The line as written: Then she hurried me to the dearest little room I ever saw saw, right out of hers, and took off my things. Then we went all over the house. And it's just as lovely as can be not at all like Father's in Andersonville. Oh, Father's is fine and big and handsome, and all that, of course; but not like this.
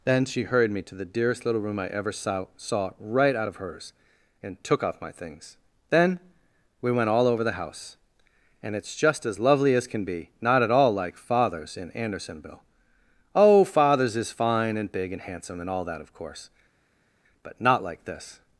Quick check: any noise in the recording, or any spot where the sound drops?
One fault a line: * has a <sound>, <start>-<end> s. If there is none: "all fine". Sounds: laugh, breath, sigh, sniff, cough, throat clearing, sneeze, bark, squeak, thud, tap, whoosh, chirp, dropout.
all fine